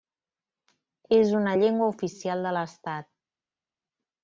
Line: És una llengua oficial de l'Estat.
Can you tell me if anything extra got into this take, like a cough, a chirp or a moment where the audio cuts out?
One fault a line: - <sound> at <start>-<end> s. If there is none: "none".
none